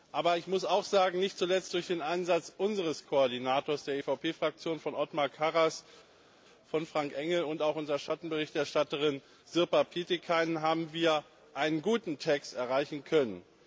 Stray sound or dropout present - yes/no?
no